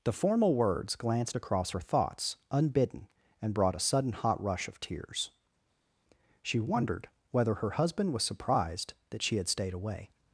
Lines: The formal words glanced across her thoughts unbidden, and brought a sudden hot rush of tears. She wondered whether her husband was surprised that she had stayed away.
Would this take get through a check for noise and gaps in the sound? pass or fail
pass